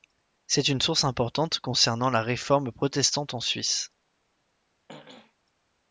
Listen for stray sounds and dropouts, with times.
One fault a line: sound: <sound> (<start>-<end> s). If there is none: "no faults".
sound: throat clearing (4.9-5.3 s)